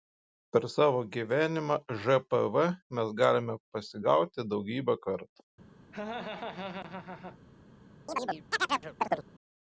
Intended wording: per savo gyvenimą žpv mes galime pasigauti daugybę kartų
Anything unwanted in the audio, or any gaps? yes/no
yes